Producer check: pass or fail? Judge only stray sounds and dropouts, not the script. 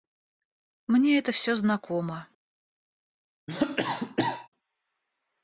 fail